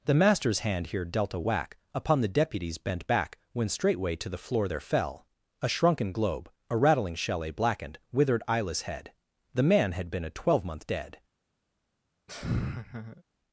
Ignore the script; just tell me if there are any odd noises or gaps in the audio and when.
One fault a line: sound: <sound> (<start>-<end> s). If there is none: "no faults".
sound: laugh (12.3-13.2 s)